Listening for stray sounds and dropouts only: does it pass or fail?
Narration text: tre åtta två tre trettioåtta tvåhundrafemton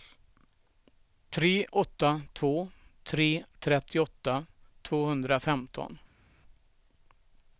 pass